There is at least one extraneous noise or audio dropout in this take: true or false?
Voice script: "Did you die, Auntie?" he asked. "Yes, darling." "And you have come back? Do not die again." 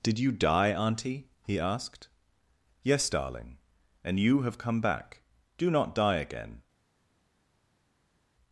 false